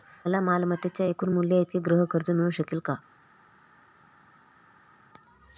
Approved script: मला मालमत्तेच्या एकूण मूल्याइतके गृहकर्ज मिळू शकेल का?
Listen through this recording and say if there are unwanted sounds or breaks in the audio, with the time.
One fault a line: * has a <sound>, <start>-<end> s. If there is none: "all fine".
all fine